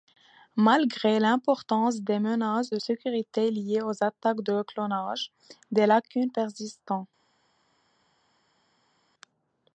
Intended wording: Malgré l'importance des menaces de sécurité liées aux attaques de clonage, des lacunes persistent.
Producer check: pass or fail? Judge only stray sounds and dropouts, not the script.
pass